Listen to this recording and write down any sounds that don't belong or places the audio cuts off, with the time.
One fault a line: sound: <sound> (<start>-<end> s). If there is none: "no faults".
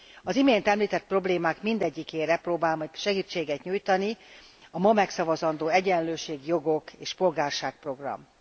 no faults